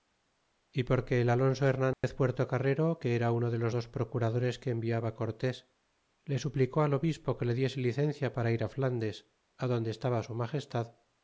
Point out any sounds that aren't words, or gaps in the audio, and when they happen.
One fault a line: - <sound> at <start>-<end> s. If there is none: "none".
- dropout at 1.9-2.0 s